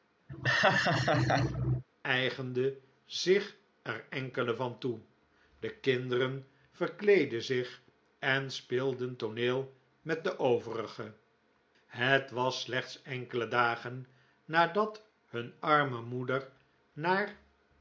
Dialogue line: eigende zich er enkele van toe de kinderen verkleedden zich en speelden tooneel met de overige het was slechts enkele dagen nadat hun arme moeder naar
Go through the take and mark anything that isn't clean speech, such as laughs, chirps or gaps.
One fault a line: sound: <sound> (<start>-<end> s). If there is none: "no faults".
sound: laugh (0.3-1.8 s)